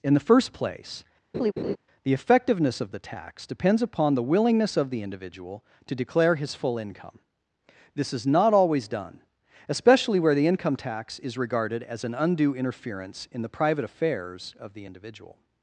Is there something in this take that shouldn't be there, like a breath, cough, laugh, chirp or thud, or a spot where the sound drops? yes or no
yes